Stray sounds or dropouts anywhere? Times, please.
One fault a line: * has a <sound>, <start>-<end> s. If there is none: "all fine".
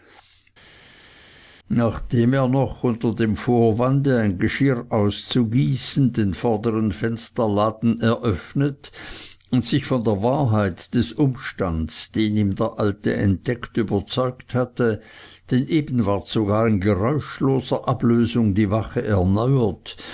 all fine